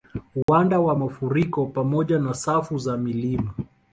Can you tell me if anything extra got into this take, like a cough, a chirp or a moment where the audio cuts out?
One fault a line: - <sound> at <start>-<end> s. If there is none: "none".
- dropout at 0.4-0.5 s